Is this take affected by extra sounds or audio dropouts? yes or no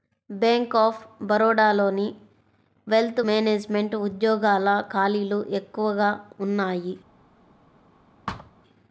yes